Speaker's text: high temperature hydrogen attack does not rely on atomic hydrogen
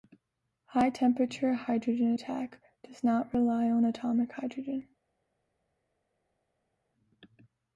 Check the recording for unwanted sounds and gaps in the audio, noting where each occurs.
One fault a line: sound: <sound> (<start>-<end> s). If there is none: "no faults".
no faults